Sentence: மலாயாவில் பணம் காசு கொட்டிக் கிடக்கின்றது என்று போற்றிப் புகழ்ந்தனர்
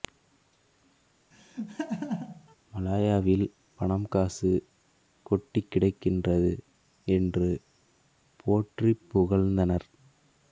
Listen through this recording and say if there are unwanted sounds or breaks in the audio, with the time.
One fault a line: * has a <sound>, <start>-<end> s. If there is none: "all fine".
* has a laugh, 1.3-2.6 s